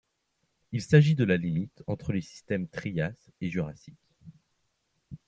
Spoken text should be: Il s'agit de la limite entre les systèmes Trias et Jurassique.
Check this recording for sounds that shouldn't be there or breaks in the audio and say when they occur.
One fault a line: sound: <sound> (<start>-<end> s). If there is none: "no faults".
no faults